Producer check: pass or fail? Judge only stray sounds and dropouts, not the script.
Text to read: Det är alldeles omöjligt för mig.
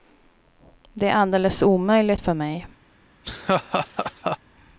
fail